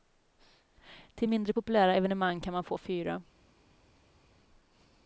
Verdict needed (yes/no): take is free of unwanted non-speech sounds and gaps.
yes